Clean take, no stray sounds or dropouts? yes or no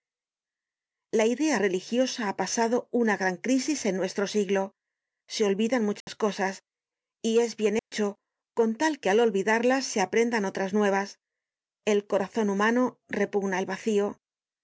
no